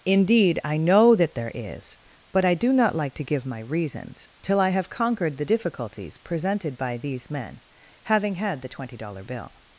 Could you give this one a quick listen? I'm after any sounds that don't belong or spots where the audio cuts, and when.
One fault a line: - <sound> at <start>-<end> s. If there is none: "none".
none